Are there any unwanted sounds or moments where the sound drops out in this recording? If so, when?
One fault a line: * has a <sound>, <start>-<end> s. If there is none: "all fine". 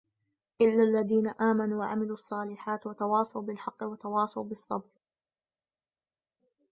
all fine